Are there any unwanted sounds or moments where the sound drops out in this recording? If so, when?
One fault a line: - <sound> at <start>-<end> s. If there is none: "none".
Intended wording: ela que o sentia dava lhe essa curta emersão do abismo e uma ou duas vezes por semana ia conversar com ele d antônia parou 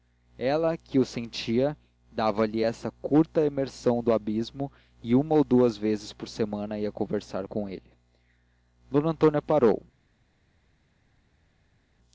none